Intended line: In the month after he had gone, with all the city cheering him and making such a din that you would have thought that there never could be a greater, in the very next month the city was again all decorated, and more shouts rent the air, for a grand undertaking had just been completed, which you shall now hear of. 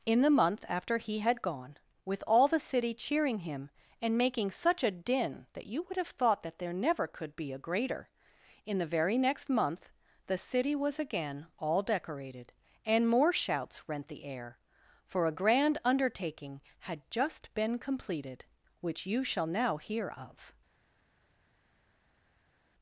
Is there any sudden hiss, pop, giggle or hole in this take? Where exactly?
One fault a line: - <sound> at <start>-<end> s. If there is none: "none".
none